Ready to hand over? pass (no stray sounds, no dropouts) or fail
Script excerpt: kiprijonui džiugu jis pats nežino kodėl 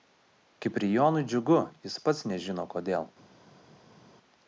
pass